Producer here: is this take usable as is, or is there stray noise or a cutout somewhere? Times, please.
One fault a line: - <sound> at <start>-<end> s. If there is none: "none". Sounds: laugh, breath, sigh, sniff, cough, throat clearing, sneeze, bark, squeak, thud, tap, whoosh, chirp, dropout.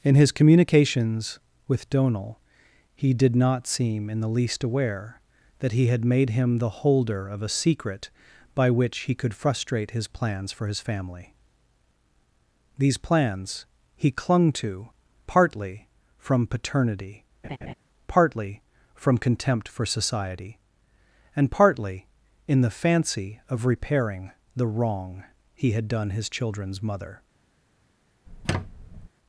- laugh at 17.4-17.7 s
- squeak at 28.3-29.1 s